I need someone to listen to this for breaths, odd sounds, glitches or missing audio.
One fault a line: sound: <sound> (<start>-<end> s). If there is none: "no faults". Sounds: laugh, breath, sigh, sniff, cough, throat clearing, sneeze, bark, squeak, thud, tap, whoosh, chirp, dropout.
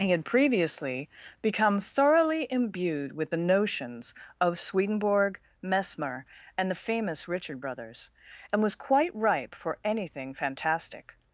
no faults